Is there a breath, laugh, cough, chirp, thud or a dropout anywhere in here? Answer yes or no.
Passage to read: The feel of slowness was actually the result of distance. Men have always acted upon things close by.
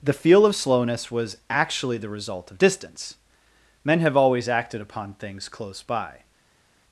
no